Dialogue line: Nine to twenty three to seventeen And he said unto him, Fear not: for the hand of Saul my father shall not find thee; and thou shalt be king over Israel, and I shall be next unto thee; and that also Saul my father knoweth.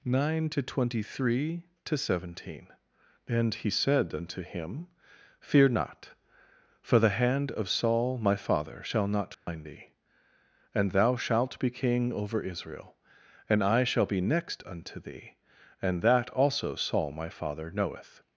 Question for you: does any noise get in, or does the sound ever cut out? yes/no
yes